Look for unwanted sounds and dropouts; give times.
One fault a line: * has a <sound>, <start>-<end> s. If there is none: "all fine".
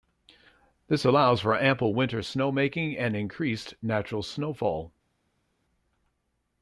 all fine